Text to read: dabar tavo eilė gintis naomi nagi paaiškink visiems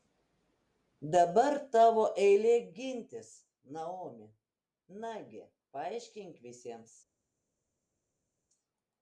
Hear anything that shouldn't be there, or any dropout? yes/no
no